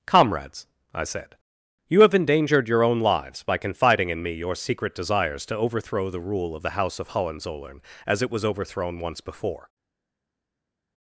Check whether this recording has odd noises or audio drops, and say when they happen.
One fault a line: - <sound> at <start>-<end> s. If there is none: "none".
none